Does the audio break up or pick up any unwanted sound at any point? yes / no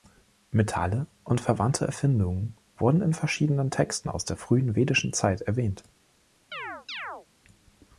yes